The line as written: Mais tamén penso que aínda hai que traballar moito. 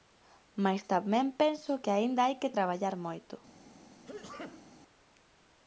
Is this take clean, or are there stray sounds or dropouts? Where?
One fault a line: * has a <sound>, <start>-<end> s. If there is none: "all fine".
* has a sneeze, 4.0-4.8 s